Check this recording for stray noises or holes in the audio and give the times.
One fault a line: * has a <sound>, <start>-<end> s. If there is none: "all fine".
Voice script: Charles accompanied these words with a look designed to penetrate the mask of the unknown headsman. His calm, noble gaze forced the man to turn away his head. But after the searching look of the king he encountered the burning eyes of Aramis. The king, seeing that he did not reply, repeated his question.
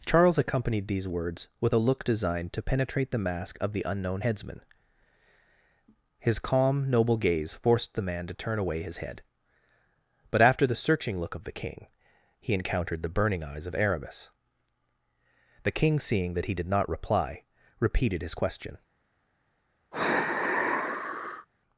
* has a sigh, 19.9-21.5 s